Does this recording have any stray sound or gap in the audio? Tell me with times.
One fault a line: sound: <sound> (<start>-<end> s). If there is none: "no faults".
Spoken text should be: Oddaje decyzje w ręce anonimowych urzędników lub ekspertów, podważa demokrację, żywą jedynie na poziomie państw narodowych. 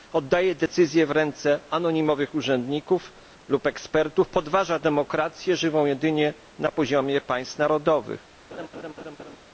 sound: laugh (8.5-9.4 s)